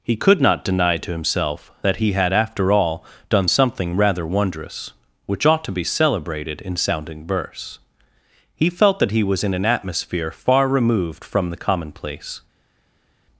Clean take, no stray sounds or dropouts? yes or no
yes